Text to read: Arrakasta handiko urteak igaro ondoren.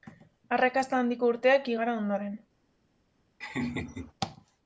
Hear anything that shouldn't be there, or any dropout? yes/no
yes